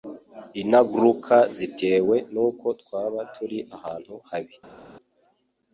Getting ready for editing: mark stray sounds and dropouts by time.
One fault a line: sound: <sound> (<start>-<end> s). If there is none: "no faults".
no faults